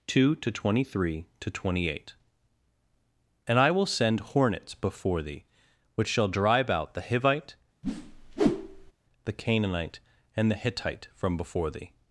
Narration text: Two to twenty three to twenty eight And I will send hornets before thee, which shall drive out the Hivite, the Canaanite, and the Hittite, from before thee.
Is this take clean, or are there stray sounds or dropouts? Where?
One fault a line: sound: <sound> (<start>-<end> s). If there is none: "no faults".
sound: whoosh (7.8-8.9 s)